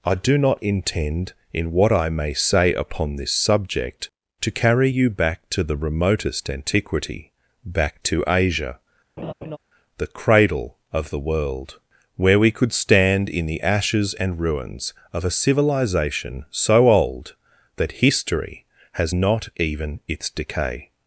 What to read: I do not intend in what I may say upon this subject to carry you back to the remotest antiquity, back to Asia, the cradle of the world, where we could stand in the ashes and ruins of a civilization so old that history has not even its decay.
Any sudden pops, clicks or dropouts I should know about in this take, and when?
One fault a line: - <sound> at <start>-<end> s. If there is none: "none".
- laugh at 9.2-9.6 s